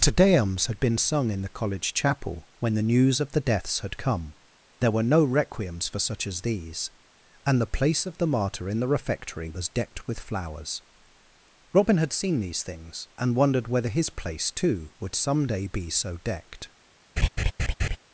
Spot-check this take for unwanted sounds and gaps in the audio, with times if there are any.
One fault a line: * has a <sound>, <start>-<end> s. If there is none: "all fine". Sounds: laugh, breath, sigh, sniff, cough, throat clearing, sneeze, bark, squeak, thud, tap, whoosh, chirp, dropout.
* has a laugh, 17.2-18.0 s